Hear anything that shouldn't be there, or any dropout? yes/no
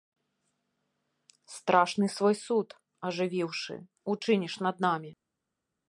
no